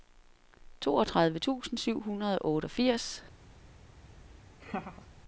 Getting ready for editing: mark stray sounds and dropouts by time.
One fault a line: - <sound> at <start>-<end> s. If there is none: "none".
- laugh at 4.6-5.1 s